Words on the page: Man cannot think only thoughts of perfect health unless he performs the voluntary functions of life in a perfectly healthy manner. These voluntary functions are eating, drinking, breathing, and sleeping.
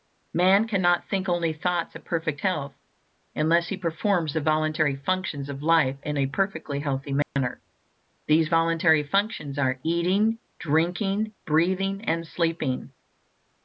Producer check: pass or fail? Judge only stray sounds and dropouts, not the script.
fail